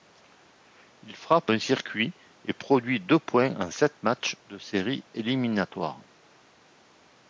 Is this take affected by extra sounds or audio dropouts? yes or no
no